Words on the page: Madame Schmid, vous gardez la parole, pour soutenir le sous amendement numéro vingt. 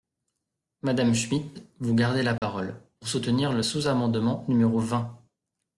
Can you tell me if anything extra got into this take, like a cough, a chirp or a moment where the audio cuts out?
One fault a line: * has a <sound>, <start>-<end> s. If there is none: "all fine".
* has a dropout, 2.4-2.4 s